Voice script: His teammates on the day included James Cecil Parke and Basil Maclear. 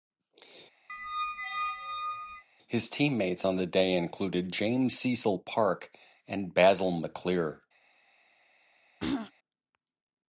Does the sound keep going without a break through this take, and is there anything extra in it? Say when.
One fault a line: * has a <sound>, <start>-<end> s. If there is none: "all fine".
* has a squeak, 0.9-2.4 s
* has a throat clearing, 9.0-9.3 s